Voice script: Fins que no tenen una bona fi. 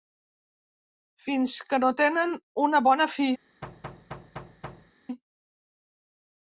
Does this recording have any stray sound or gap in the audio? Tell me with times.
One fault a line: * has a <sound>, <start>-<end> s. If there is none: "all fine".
* has a thud, 3.6-4.9 s